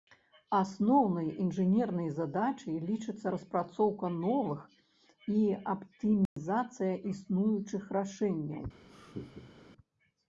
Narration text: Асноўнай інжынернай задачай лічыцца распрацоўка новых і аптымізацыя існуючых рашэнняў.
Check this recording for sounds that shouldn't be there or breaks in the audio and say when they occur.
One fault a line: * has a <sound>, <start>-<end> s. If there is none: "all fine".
* has a dropout, 6.3-6.4 s
* has a laugh, 8.9-9.6 s